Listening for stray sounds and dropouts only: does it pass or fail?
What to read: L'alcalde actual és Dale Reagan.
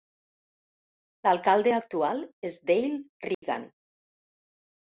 fail